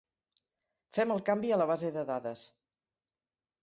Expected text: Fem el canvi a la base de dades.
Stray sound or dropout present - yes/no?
no